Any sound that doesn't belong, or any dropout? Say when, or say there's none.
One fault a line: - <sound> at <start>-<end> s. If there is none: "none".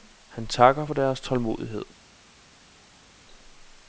none